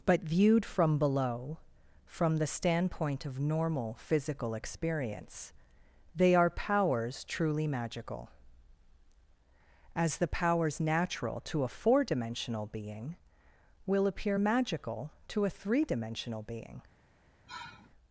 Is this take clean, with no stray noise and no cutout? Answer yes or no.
no